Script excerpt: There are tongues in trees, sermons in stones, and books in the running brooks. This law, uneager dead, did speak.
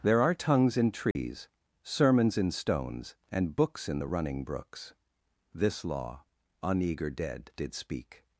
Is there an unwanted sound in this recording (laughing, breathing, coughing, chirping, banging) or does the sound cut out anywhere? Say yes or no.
yes